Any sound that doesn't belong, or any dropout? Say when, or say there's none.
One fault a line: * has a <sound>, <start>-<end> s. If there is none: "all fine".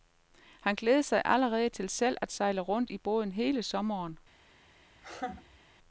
* has a laugh, 5.0-5.6 s